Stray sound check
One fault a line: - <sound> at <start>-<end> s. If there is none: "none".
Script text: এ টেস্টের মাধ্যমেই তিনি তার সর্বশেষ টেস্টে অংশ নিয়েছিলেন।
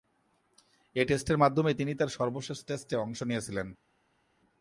none